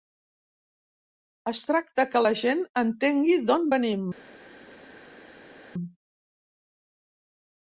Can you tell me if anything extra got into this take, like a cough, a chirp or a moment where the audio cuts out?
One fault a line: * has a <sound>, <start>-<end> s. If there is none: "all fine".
all fine